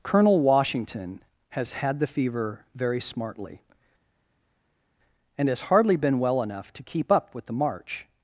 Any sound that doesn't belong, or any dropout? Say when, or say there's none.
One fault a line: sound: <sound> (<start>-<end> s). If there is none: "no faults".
no faults